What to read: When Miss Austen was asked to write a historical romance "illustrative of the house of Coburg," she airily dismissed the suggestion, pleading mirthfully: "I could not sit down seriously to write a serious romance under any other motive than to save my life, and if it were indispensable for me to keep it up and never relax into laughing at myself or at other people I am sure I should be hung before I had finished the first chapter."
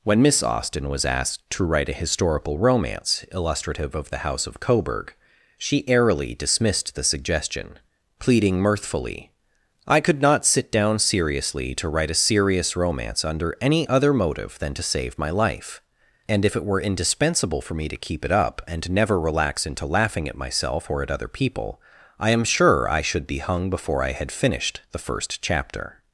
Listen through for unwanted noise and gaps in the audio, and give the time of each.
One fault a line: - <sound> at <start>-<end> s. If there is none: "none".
none